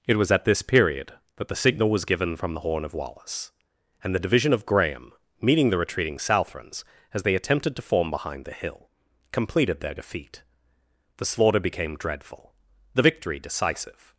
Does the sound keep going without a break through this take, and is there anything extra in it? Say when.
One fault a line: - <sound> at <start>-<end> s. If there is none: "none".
none